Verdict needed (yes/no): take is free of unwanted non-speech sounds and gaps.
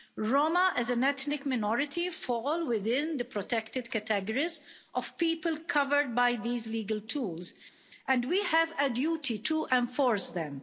yes